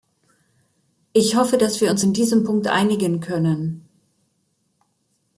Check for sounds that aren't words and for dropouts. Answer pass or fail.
pass